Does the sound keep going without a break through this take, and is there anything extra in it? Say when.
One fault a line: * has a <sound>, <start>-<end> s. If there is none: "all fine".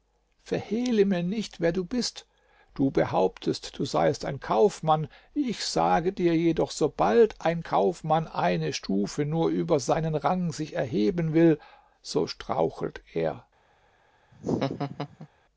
* has a laugh, 14.3-15.3 s